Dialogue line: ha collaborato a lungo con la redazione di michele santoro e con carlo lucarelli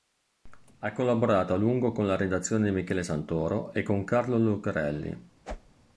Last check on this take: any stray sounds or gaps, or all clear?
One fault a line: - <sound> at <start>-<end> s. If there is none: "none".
- whoosh at 5.4-5.8 s